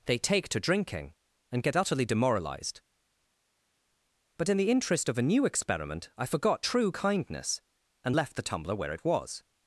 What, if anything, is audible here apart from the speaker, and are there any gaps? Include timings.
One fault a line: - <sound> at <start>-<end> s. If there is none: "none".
none